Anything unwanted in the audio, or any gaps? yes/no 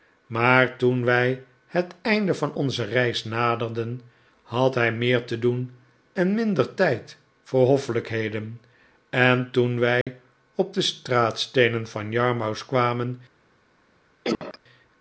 yes